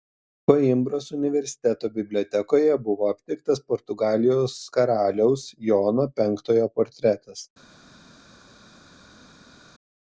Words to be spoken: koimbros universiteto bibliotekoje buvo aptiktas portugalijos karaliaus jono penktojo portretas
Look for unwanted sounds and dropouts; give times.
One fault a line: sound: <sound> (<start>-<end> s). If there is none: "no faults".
no faults